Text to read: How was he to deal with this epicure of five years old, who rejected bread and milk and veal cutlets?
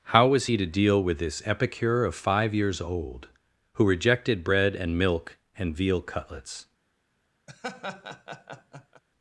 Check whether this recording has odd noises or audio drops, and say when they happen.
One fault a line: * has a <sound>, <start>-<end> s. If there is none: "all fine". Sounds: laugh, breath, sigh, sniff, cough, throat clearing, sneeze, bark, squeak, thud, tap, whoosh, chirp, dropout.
* has a laugh, 7.5-9.0 s